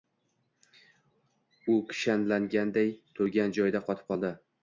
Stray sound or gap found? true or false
false